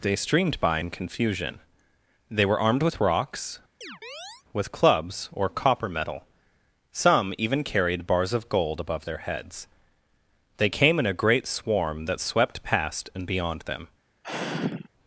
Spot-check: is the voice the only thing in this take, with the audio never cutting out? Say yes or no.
no